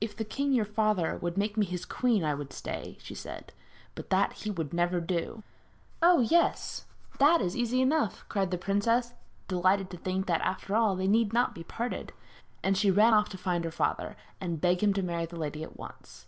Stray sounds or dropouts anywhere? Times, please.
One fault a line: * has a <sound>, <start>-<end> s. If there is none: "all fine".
all fine